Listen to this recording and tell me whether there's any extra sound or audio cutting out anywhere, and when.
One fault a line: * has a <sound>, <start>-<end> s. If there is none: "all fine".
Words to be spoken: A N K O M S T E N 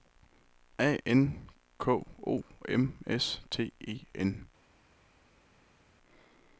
all fine